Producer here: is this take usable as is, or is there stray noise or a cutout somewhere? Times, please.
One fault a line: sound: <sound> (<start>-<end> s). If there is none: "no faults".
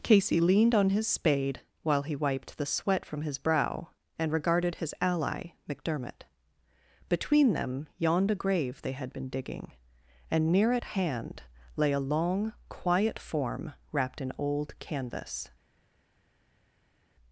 no faults